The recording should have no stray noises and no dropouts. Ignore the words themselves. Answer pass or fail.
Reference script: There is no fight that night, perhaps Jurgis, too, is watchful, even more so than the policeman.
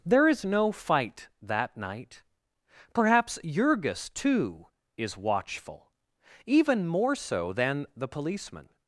pass